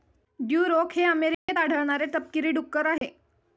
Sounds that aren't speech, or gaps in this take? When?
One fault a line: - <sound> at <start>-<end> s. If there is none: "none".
- dropout at 1.3-1.5 s
- dropout at 3.0-3.0 s